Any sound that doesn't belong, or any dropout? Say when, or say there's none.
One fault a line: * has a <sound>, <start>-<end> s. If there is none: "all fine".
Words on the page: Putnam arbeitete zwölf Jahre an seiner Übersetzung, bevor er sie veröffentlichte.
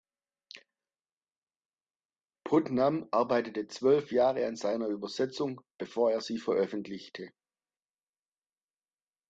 all fine